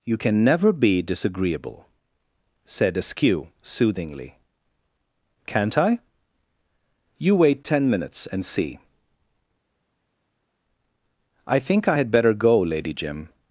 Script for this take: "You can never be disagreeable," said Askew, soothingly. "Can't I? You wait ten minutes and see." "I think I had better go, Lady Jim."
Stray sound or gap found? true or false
false